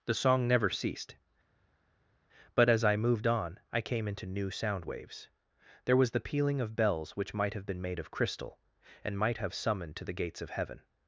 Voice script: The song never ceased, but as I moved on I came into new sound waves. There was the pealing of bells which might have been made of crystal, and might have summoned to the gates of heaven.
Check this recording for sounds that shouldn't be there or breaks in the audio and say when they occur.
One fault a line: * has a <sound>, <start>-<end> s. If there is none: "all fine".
all fine